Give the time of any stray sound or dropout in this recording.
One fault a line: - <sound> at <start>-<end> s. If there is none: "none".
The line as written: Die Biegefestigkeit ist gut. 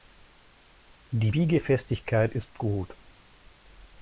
none